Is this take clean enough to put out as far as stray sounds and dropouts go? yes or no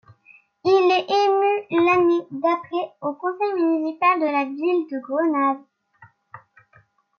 yes